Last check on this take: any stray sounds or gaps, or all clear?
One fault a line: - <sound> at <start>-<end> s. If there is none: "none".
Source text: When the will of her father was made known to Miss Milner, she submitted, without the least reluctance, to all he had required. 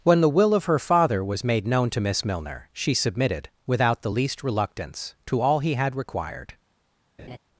- laugh at 7.2-7.4 s